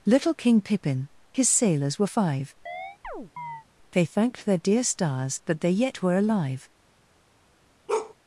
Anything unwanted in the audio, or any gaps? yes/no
yes